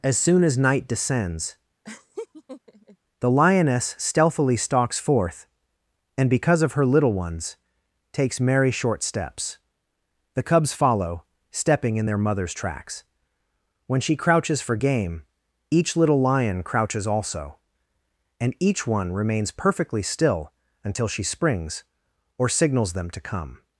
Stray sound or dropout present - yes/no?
yes